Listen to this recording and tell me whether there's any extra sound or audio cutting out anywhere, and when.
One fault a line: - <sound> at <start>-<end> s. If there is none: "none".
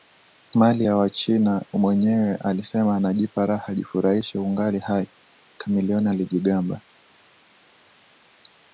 none